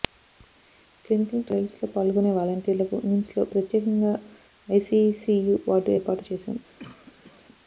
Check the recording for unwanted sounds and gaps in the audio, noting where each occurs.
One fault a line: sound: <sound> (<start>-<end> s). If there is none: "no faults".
sound: cough (6.8-7.4 s)